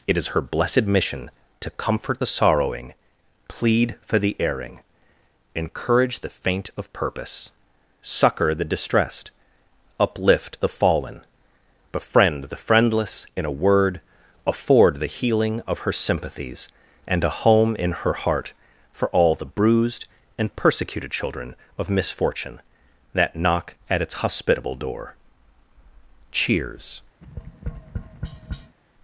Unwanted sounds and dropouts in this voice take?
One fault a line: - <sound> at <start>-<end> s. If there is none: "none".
- tap at 27.2-28.8 s